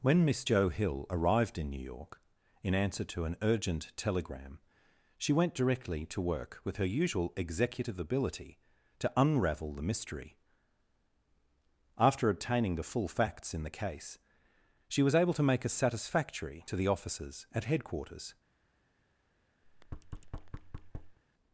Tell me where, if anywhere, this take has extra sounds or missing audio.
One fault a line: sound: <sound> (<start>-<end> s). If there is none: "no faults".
sound: thud (19.6-21.2 s)